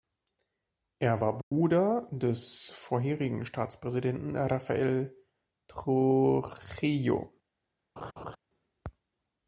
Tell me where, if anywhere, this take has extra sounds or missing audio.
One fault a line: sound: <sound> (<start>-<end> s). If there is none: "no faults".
sound: dropout (1.4-1.5 s)
sound: laugh (8.0-8.4 s)